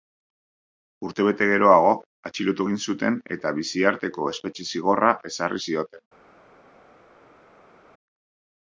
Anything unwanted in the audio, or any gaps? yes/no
no